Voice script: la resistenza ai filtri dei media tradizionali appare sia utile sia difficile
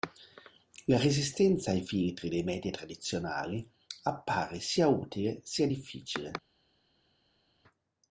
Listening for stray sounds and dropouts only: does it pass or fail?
pass